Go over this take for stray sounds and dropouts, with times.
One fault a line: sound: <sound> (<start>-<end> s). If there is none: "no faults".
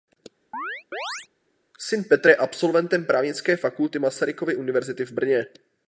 sound: chirp (0.5-1.3 s)